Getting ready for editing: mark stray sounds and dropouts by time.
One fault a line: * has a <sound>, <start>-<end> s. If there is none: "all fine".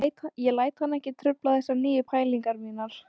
all fine